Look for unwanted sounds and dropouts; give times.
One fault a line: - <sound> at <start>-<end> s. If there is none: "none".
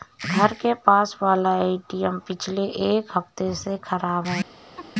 - laugh at 4.8-4.9 s